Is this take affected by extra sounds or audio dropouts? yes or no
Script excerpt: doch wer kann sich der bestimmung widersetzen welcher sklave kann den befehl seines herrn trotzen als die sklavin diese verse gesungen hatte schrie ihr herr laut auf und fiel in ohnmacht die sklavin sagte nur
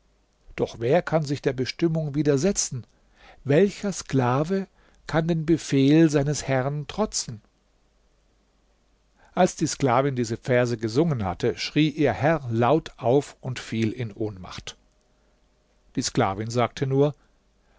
no